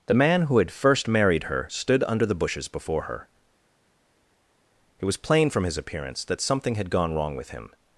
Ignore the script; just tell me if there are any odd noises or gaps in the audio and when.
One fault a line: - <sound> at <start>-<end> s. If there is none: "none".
none